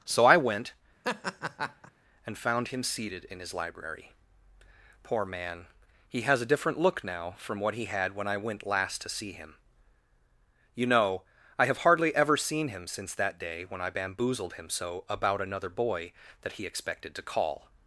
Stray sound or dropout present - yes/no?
yes